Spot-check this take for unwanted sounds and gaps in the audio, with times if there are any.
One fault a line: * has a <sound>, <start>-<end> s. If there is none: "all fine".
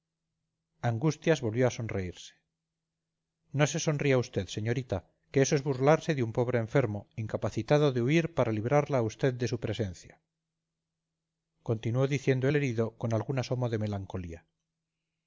all fine